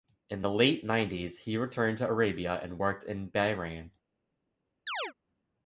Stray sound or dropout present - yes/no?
yes